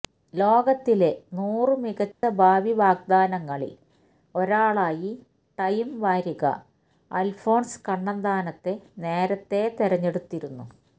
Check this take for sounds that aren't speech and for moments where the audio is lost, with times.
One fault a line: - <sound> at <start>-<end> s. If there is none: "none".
- dropout at 2.1-2.2 s